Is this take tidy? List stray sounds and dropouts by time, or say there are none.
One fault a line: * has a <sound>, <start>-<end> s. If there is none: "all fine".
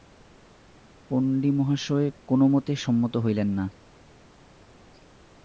all fine